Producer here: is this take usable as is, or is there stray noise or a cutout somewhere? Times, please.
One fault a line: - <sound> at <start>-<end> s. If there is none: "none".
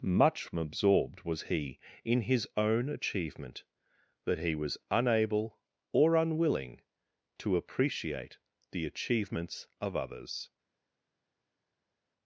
none